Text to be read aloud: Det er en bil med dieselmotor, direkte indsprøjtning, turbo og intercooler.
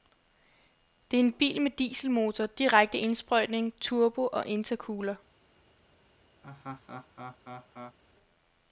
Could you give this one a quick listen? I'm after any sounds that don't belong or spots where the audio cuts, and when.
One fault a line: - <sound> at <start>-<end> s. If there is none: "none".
- laugh at 6.4-8.0 s